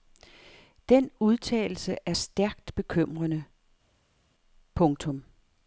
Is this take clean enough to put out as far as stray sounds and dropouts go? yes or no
yes